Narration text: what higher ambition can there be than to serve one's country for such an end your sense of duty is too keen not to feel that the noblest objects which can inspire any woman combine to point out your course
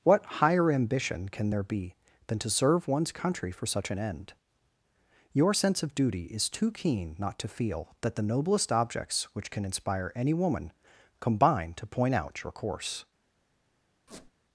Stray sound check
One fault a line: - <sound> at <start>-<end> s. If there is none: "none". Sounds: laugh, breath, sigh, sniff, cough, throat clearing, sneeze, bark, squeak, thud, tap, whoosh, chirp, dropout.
- squeak at 14.1-14.3 s